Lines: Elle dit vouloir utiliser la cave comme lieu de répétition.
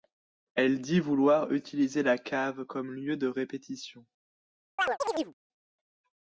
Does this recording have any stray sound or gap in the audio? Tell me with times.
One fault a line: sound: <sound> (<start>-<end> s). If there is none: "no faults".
sound: chirp (4.8-5.3 s)